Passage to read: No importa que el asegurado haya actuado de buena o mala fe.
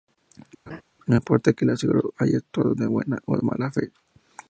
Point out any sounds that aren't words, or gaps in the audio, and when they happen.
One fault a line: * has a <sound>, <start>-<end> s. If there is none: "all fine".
* has a laugh, 0.7-0.8 s